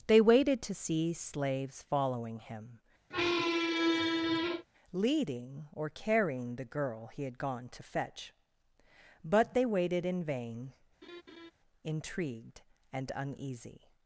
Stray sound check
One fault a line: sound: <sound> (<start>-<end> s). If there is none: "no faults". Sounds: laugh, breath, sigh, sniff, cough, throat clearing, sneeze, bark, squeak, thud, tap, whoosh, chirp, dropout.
sound: squeak (3.1-4.7 s)
sound: laugh (11.0-11.5 s)